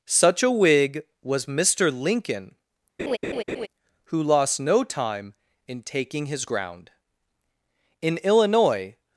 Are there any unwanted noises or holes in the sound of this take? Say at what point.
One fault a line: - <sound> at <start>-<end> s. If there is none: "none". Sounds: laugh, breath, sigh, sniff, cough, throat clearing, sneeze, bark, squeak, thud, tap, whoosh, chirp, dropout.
- laugh at 3.0-3.7 s